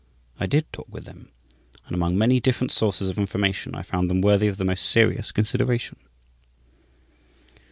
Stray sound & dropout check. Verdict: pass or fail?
pass